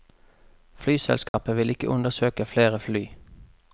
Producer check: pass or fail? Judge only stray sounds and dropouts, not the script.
fail